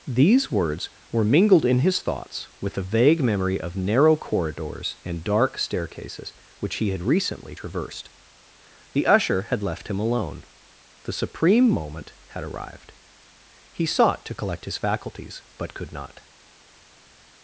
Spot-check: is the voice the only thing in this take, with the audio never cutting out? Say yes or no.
yes